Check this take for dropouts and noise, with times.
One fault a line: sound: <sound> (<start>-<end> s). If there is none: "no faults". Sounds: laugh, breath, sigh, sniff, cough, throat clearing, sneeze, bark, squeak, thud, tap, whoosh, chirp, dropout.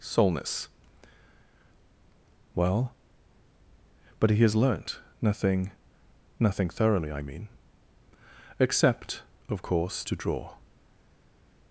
no faults